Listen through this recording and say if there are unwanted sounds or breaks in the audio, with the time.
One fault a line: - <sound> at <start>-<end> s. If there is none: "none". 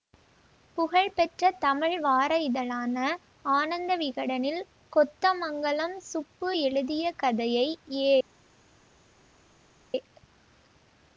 none